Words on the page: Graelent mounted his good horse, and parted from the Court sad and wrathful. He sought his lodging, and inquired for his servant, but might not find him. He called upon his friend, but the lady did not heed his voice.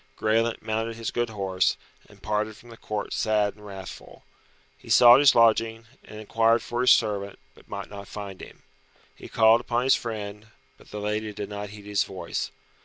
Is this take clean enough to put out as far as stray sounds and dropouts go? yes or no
yes